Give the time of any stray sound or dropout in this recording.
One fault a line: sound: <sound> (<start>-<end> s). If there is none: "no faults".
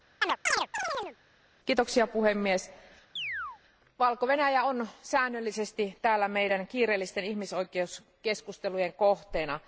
sound: chirp (0.2-1.2 s)
sound: chirp (3.2-3.6 s)